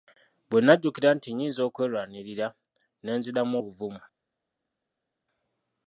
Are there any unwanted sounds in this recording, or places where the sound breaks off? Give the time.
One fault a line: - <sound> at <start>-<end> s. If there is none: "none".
none